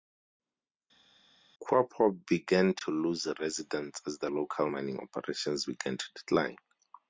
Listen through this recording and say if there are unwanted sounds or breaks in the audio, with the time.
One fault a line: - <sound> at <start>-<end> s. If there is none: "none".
none